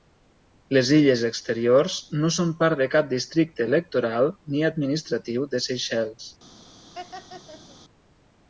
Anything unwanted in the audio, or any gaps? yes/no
yes